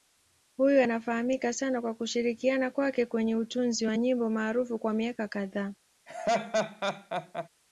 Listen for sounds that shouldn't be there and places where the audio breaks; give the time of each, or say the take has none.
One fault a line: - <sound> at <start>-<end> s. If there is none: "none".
- laugh at 6.1-7.5 s